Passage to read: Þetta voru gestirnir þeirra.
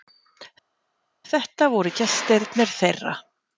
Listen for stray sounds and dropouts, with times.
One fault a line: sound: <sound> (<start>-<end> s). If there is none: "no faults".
no faults